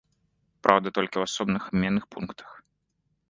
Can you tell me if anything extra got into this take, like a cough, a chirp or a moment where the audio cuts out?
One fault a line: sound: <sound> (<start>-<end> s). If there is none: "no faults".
no faults